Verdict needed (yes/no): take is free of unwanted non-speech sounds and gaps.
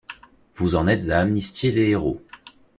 yes